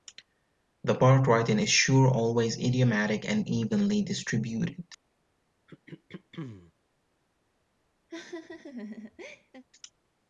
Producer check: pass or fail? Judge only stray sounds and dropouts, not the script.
fail